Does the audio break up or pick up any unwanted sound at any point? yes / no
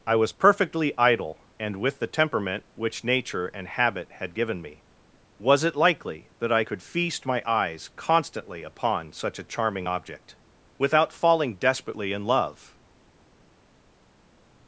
no